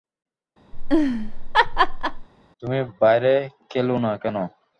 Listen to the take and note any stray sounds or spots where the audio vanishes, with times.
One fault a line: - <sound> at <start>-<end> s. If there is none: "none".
- laugh at 0.7-2.3 s